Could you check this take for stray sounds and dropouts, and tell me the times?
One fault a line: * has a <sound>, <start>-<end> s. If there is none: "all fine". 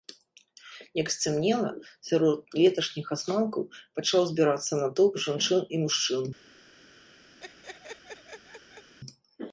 * has a laugh, 7.4-8.9 s